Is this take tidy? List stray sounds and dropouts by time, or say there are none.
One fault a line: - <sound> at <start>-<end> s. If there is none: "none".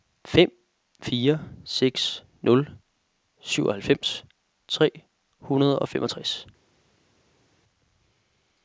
none